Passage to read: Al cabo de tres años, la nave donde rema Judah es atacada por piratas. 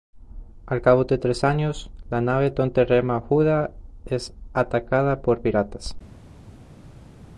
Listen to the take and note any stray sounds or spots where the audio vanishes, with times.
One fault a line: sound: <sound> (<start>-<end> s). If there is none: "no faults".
no faults